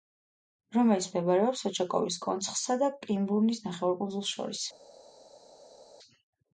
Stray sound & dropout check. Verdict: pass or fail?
pass